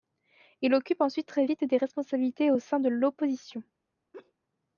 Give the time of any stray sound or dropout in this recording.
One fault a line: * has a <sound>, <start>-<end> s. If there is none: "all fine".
* has a laugh, 4.1-4.3 s